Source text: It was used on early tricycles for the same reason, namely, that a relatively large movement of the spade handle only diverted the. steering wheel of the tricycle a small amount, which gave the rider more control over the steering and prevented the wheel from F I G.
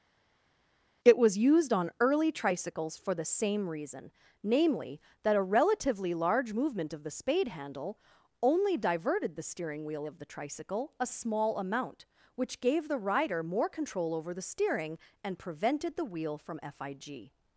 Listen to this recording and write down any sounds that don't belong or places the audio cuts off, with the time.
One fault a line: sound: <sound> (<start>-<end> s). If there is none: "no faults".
no faults